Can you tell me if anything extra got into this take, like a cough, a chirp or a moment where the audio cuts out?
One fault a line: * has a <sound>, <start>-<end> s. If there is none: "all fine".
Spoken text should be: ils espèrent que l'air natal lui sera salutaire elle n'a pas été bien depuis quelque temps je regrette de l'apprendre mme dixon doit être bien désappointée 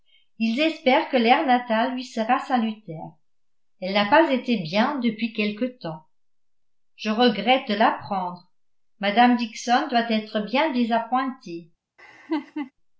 * has a laugh, 12.0-12.7 s